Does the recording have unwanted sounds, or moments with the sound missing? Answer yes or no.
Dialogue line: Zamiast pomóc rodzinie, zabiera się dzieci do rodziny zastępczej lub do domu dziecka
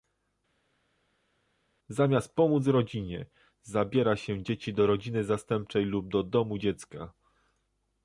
no